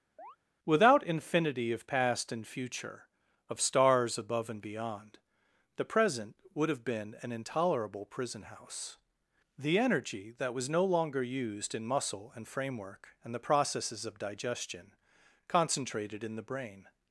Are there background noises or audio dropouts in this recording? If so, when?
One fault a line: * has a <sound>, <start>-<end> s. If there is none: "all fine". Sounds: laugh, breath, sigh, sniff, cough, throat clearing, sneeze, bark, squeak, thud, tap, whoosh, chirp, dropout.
* has a chirp, 0.2-0.4 s